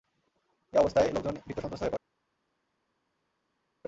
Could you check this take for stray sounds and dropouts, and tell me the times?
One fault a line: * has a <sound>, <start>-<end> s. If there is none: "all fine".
all fine